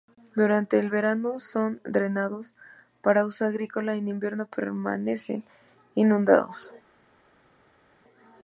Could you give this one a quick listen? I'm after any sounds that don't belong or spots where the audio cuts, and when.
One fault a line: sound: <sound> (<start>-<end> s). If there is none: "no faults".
no faults